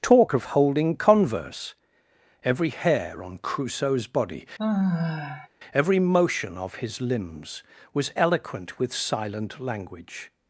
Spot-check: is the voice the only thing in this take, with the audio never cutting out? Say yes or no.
no